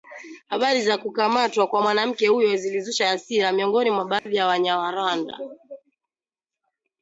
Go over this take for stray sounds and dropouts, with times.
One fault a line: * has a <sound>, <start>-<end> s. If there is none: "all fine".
* has a dropout, 4.2-4.3 s